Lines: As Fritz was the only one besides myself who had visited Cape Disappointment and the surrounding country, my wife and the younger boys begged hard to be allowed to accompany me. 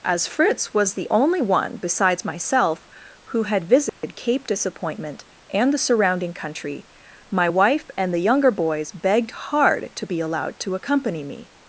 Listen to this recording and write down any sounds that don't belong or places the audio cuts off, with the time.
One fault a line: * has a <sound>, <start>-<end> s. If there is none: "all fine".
* has a dropout, 3.9-4.0 s